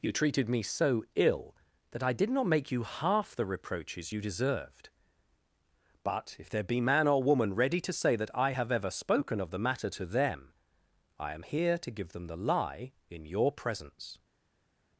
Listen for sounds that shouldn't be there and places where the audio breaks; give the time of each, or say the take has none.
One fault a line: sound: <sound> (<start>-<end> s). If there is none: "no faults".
no faults